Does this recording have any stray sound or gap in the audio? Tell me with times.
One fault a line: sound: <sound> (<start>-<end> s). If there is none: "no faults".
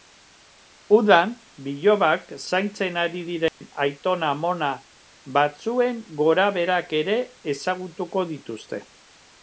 sound: dropout (3.5-3.6 s)